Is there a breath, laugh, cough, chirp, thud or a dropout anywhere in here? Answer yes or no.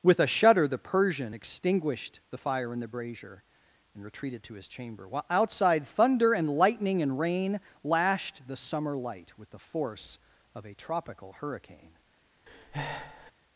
yes